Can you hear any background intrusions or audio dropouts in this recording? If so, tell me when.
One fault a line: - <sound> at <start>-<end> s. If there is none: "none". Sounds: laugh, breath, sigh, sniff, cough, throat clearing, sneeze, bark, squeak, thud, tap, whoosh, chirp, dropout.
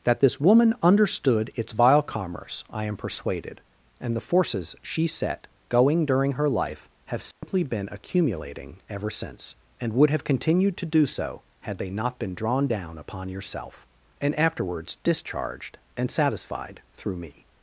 - dropout at 7.3-7.4 s